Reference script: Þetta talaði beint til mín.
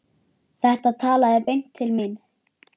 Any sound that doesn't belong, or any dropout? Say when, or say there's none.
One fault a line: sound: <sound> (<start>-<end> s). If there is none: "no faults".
no faults